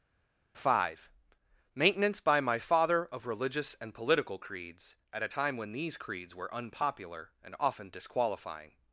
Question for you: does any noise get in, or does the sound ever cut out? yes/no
no